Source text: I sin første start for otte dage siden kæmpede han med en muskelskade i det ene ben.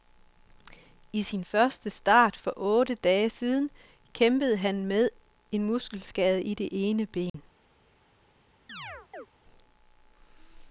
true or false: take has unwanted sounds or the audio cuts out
true